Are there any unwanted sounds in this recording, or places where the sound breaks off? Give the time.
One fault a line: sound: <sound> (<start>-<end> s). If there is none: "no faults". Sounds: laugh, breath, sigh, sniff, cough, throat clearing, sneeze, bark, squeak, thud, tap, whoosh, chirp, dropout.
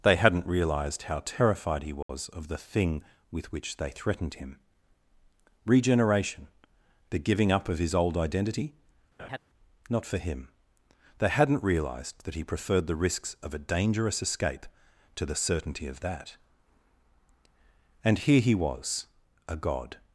sound: dropout (2.0-2.1 s)
sound: laugh (9.2-9.4 s)